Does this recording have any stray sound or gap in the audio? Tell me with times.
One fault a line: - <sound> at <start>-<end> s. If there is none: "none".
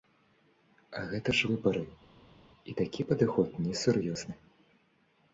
none